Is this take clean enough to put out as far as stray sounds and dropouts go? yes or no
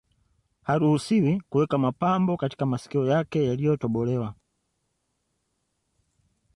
yes